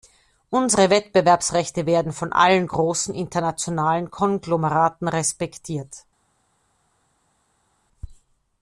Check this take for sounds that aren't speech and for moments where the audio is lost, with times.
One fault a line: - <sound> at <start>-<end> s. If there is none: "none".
none